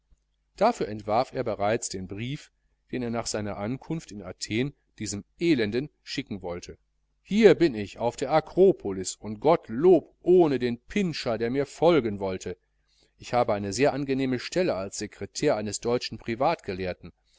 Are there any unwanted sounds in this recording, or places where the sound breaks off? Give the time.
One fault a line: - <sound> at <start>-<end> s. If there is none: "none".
none